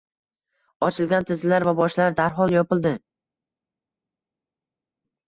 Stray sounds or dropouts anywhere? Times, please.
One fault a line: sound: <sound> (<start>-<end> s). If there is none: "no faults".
no faults